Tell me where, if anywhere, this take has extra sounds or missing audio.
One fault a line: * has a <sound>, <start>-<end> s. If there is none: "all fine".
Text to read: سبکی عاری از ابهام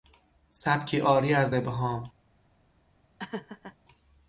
* has a laugh, 3.2-3.8 s